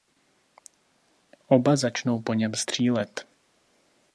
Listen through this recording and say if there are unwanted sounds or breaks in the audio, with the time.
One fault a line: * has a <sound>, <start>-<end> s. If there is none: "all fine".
all fine